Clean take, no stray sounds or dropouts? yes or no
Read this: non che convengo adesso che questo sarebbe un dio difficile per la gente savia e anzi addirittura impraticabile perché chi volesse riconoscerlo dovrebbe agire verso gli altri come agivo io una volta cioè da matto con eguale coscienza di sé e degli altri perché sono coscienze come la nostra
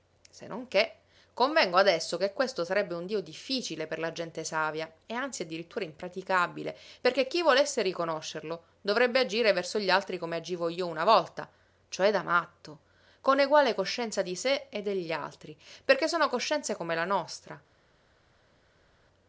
yes